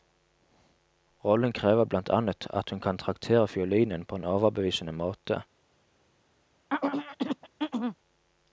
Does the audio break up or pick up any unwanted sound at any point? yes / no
yes